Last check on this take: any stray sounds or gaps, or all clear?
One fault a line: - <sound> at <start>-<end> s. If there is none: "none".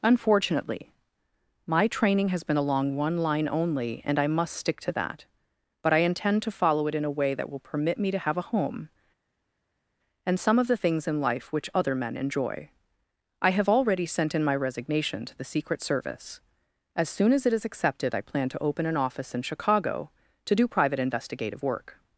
none